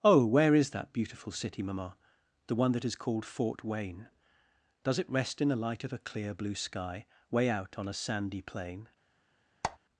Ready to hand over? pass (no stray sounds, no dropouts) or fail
fail